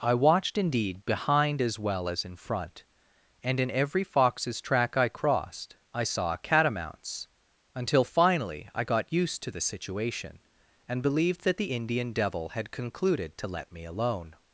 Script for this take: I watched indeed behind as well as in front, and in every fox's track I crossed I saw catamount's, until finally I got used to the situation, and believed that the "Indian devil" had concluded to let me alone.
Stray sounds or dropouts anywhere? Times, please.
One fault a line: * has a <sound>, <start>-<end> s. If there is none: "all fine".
all fine